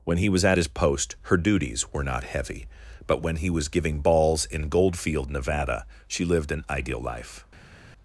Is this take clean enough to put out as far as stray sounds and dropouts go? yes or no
yes